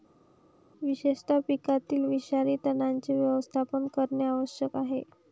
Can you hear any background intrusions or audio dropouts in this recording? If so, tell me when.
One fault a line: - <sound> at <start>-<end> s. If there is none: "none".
none